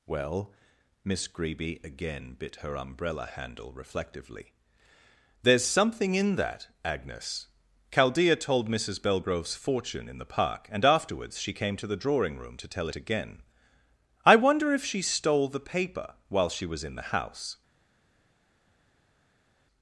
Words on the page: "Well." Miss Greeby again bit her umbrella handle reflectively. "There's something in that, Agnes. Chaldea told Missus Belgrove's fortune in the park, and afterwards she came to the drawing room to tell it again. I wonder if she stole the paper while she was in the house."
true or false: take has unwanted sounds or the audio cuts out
false